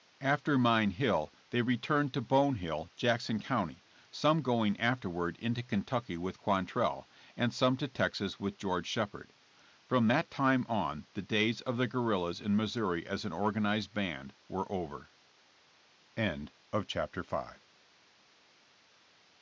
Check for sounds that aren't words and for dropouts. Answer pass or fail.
pass